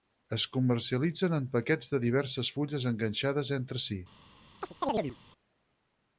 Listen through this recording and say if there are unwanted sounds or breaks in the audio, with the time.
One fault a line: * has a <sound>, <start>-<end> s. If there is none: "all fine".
* has a chirp, 4.6-5.2 s